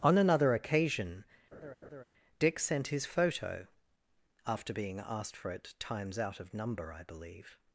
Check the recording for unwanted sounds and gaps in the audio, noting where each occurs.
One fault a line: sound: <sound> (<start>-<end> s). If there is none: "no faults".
sound: laugh (1.5-2.0 s)